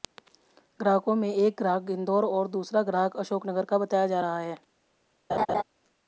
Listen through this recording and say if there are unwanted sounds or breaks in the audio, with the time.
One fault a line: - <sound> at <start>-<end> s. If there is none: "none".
- laugh at 5.3-5.6 s